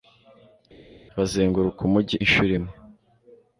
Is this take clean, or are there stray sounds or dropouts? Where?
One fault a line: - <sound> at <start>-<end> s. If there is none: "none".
none